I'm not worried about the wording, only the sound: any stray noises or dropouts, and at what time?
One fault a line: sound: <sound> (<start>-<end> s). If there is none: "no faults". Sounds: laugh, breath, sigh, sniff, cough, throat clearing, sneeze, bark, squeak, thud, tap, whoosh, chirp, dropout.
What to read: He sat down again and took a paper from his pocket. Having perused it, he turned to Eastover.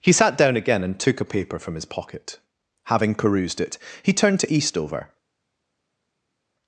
no faults